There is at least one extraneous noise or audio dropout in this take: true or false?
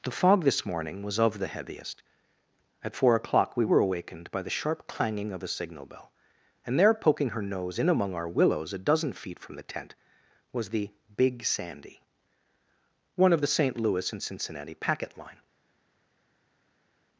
false